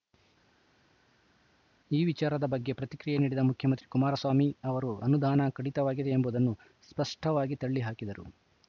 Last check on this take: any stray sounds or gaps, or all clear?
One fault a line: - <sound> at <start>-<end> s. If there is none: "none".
none